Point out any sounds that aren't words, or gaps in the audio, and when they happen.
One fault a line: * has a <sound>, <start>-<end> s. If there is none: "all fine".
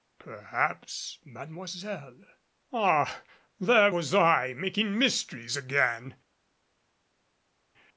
all fine